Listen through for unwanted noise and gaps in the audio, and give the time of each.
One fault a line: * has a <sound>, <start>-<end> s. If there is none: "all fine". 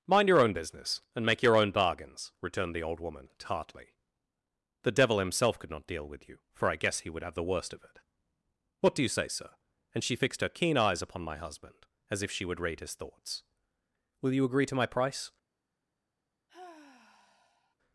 * has a sigh, 16.5-17.8 s